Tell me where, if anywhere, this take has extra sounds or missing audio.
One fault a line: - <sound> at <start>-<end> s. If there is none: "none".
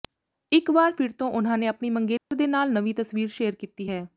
- dropout at 2.2-2.3 s